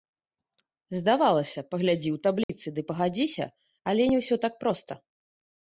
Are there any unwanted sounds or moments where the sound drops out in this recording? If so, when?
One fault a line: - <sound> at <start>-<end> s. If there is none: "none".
- dropout at 2.4-2.5 s